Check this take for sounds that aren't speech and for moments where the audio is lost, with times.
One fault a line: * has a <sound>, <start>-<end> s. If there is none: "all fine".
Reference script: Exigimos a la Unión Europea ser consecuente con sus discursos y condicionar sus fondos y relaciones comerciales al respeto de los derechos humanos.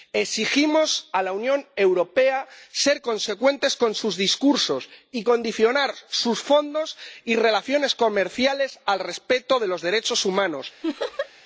* has a laugh, 10.8-11.3 s